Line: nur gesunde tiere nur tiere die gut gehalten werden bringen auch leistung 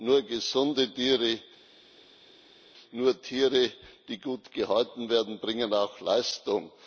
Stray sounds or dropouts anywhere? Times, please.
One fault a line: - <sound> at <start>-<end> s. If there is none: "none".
none